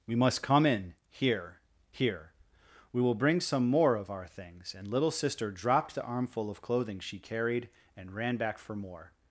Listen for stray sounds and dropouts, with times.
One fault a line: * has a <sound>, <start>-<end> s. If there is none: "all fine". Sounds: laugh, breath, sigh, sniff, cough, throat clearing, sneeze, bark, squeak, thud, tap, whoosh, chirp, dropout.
all fine